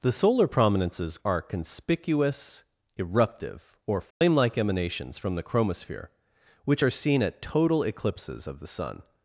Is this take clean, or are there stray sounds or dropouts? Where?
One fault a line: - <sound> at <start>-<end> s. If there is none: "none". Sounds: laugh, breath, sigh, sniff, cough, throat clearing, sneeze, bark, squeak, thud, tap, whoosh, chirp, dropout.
- dropout at 4.1-4.2 s